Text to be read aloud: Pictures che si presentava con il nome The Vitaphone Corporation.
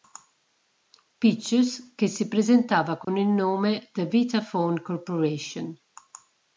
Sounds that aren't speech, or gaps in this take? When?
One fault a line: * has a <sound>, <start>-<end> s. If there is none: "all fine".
* has a dropout, 3.0-3.1 s